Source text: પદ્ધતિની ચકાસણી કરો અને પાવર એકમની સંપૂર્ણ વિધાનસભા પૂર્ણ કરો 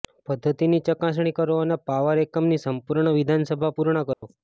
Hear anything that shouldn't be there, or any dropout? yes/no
yes